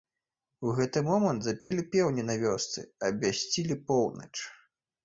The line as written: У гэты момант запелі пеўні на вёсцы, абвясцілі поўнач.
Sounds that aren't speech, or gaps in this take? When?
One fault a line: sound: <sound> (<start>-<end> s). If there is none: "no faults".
sound: dropout (1.6-1.7 s)